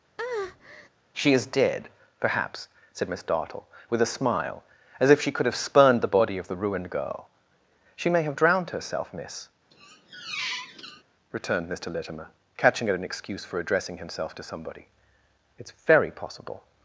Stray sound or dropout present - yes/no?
yes